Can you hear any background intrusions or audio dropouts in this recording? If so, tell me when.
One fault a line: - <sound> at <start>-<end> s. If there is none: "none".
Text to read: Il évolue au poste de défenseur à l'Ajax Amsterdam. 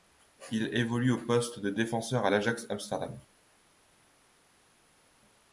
none